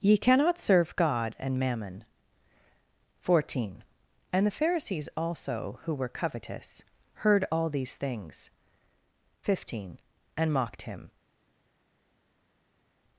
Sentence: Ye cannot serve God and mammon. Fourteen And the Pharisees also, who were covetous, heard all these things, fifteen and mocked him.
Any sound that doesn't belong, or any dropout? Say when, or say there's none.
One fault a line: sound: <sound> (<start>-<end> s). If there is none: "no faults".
no faults